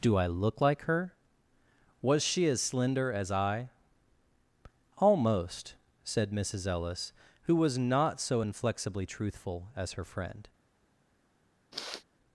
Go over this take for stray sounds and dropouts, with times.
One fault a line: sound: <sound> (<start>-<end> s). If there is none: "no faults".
sound: sniff (11.7-12.0 s)